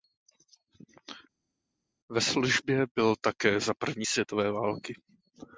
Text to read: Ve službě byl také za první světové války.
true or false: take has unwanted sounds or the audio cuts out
false